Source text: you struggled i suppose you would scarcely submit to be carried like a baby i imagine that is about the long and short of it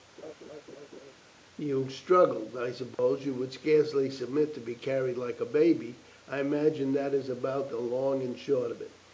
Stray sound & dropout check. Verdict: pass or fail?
fail